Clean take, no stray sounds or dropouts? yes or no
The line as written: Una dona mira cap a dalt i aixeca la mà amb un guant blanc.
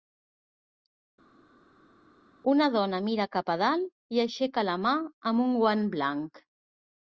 yes